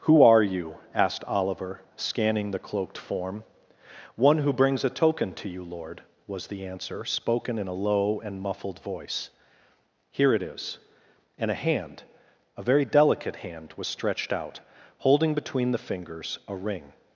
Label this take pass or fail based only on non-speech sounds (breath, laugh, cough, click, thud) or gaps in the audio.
pass